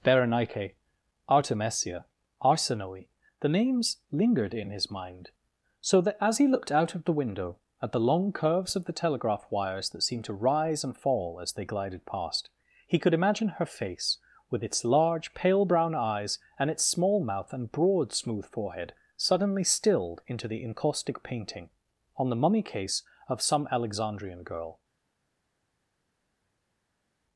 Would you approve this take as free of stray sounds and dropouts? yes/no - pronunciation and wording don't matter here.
yes